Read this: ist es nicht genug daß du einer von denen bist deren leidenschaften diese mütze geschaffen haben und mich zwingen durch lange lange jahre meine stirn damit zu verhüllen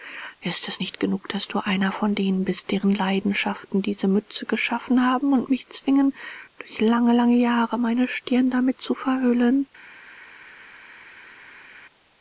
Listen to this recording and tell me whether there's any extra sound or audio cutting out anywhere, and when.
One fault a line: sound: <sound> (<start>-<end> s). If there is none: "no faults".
no faults